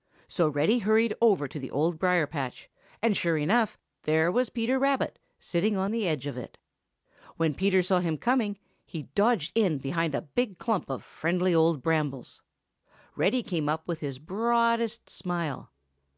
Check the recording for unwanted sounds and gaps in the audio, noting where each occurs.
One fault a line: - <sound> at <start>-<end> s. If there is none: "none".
none